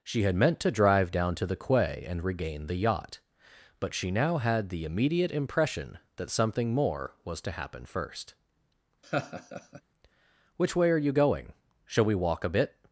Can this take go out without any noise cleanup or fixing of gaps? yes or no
no